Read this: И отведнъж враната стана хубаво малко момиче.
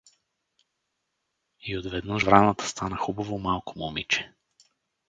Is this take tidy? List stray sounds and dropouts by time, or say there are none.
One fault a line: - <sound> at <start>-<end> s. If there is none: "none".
none